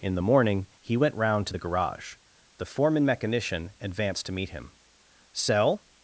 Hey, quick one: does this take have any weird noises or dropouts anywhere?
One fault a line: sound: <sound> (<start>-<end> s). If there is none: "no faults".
no faults